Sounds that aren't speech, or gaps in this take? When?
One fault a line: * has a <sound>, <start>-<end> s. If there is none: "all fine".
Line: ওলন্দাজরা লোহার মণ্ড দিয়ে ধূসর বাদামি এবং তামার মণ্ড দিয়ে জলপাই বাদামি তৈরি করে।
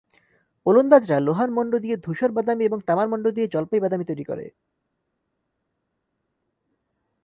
all fine